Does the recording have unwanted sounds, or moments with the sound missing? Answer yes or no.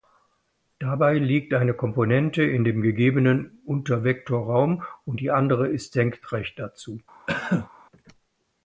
yes